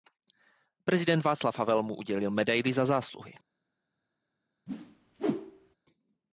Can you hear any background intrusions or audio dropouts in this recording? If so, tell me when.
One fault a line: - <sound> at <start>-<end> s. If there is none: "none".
- whoosh at 4.7-5.8 s